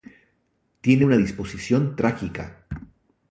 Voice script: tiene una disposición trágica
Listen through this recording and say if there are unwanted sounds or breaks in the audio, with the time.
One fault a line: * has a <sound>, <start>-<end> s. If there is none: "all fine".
all fine